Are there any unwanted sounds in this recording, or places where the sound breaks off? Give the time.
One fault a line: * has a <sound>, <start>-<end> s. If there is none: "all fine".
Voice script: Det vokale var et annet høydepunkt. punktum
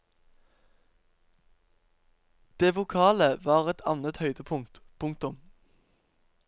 all fine